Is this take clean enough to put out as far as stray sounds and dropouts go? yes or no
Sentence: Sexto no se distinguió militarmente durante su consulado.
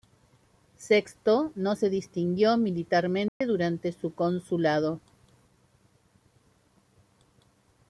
no